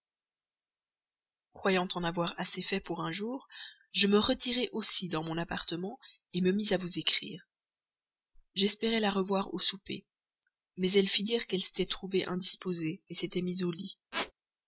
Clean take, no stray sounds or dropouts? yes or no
no